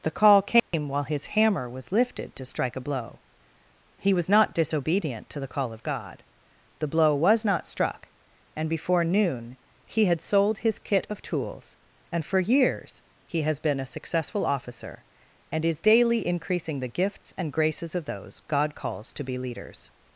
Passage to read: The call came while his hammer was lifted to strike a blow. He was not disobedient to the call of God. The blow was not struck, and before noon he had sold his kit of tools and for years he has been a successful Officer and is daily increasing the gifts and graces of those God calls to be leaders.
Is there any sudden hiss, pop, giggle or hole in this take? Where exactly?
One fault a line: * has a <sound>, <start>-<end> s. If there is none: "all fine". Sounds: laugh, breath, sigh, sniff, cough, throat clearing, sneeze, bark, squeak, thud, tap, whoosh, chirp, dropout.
* has a dropout, 0.6-0.7 s